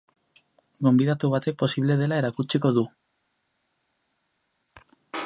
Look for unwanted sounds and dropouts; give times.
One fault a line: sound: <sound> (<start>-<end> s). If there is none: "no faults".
no faults